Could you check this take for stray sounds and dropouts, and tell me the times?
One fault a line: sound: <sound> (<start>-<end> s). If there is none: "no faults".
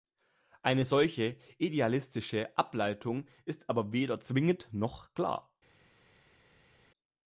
no faults